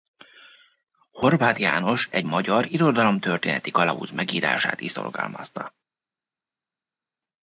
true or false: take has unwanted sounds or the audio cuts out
false